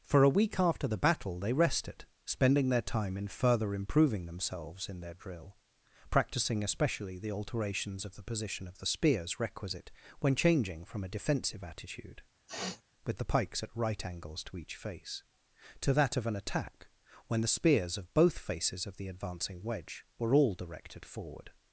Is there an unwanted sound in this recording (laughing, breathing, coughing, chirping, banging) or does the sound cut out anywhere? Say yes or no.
yes